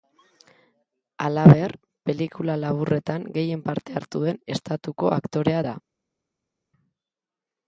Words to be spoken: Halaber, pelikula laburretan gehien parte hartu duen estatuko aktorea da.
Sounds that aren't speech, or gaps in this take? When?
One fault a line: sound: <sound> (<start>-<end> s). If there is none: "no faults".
no faults